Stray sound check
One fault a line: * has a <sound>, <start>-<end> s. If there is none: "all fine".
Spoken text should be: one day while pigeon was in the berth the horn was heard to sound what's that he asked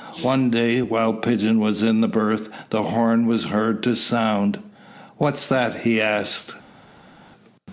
all fine